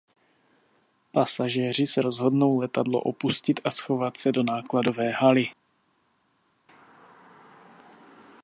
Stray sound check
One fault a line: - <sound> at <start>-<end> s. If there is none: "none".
none